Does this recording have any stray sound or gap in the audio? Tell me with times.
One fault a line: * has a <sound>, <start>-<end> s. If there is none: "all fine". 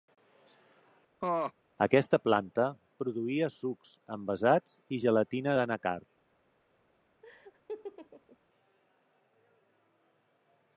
* has a laugh, 1.2-1.5 s
* has a laugh, 7.2-8.4 s